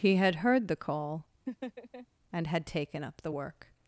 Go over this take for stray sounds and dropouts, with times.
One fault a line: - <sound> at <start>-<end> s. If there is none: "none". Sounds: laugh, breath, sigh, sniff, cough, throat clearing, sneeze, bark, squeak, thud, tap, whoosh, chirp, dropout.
- laugh at 1.5-2.1 s